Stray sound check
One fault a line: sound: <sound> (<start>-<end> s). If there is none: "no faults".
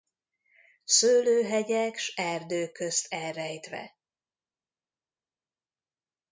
no faults